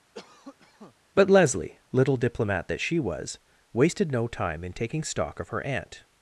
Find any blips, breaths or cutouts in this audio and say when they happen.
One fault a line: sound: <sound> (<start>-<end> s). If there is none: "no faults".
sound: cough (0.1-0.9 s)